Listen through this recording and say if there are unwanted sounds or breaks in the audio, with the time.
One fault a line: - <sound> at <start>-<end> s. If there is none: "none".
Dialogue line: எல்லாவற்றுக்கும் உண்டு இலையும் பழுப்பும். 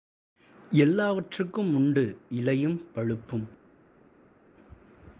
none